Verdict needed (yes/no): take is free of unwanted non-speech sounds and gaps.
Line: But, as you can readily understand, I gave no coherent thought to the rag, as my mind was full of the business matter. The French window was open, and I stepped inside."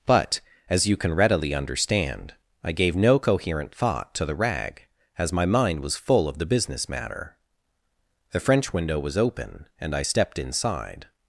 yes